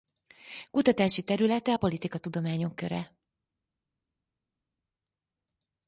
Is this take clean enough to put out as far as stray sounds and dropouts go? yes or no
yes